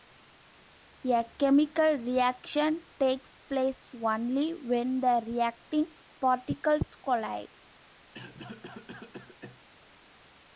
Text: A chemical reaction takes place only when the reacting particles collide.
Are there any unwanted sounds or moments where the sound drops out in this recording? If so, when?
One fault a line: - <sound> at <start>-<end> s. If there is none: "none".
- cough at 8.1-9.6 s